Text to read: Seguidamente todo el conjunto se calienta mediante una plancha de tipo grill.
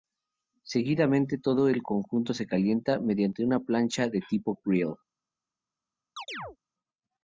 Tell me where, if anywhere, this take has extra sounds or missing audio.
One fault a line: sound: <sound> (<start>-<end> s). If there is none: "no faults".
sound: chirp (6.2-6.6 s)